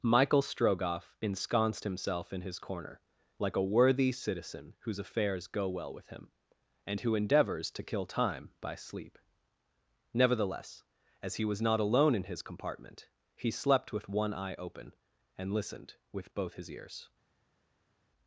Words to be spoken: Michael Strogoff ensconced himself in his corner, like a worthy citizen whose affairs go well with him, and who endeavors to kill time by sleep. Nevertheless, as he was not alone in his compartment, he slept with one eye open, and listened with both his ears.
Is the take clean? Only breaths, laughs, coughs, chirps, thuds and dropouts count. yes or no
yes